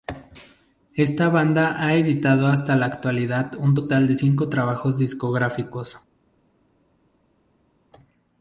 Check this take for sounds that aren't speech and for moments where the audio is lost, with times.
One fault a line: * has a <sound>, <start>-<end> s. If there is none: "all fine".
all fine